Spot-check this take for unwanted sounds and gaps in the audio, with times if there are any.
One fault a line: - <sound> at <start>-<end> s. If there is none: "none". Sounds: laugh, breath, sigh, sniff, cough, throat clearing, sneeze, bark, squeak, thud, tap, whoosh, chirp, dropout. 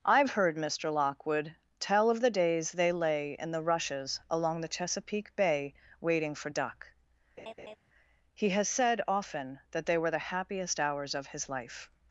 - laugh at 7.4-7.8 s